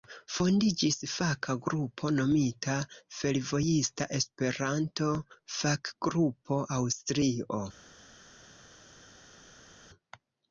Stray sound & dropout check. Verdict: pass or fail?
pass